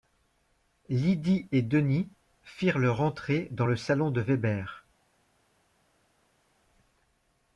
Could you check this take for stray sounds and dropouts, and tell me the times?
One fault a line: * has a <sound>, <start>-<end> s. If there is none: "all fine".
all fine